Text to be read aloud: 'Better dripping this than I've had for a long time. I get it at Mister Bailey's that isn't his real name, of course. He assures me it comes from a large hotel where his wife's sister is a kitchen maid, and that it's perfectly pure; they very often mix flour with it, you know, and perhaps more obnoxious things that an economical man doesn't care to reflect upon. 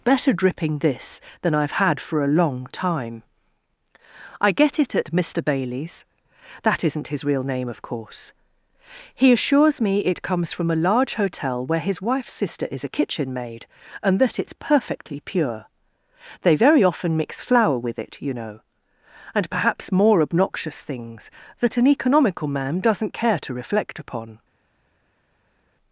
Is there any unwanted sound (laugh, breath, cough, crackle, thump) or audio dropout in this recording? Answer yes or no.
no